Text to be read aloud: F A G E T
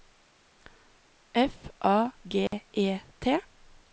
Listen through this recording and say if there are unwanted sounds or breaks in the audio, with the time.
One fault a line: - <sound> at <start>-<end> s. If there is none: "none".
- dropout at 2.5-2.5 s